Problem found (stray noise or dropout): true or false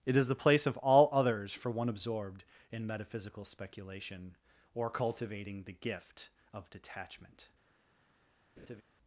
true